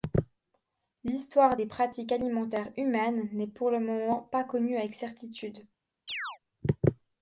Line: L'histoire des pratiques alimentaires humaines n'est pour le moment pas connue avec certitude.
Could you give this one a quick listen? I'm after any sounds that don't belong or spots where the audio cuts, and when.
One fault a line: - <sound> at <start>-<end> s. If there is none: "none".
- chirp at 6.1-6.4 s